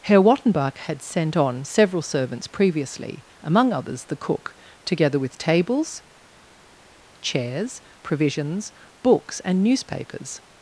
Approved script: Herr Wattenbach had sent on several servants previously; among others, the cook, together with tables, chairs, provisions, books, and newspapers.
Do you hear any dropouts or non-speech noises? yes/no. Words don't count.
no